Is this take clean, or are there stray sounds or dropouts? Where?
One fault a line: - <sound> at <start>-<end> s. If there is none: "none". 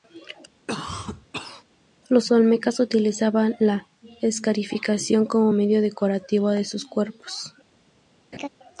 - cough at 0.7-1.6 s
- laugh at 8.3-8.5 s